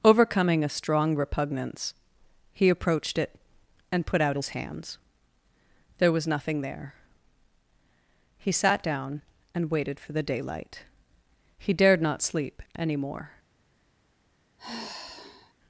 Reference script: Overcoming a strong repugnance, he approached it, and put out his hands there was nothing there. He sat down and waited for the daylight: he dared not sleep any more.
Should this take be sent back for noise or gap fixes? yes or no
yes